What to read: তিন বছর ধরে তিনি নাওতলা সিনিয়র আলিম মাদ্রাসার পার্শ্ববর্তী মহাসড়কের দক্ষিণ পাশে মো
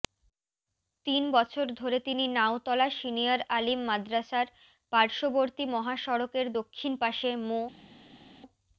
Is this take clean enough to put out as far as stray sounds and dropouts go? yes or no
yes